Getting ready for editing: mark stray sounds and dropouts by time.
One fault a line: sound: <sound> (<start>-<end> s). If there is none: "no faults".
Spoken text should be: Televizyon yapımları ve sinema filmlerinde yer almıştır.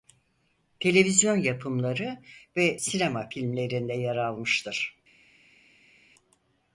no faults